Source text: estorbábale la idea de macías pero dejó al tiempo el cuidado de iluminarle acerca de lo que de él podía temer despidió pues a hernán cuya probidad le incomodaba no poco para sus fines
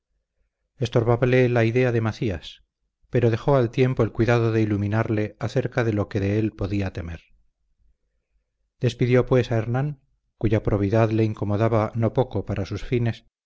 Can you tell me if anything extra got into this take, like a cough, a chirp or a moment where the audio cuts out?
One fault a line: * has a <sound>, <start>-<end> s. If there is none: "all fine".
all fine